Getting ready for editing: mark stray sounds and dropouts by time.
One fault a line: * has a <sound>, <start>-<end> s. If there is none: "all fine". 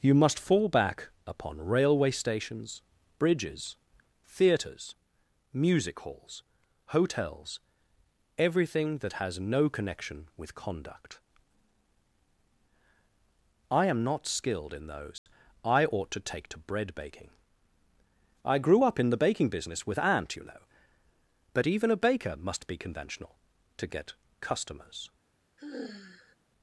* has a dropout, 15.2-15.3 s
* has a sigh, 25.6-26.4 s